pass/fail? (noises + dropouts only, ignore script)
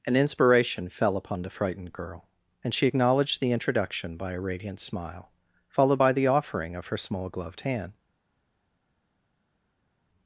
pass